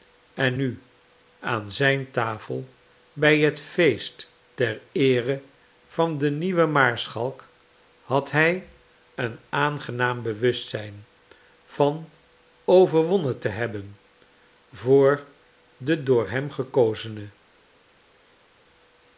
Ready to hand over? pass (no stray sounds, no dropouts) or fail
pass